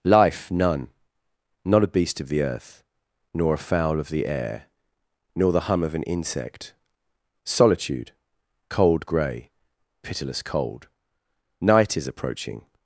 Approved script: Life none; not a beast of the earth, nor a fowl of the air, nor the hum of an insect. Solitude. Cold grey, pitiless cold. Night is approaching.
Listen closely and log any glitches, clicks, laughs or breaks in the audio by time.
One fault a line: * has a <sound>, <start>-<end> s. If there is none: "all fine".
all fine